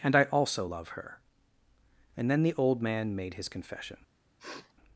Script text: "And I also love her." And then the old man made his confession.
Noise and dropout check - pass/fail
fail